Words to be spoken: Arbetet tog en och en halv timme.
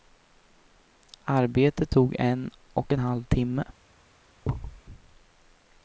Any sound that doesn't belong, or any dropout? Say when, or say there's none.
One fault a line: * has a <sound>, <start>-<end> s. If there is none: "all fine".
* has a thud, 4.4-4.8 s